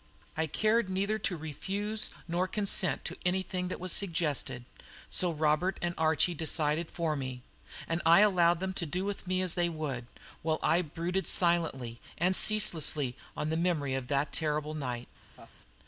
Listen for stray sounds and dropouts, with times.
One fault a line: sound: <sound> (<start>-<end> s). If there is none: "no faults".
sound: laugh (15.4-15.6 s)